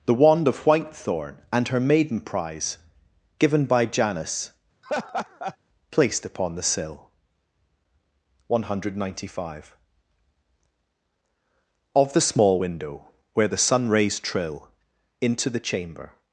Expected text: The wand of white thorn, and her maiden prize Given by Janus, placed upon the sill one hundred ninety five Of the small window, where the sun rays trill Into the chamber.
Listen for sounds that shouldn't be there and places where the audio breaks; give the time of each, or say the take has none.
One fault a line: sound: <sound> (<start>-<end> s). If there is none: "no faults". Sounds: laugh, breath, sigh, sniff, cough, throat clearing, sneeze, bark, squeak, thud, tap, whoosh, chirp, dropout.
sound: laugh (4.8-5.6 s)